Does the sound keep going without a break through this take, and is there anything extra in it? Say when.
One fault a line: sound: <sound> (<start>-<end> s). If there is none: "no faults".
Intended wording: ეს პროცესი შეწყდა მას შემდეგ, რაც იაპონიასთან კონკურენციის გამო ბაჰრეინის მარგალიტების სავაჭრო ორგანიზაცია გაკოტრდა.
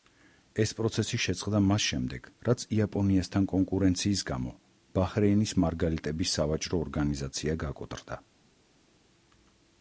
no faults